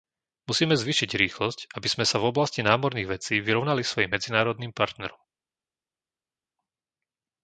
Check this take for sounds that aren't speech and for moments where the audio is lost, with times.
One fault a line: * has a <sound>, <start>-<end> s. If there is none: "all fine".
all fine